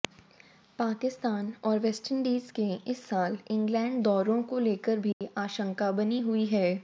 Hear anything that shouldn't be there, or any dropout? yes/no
yes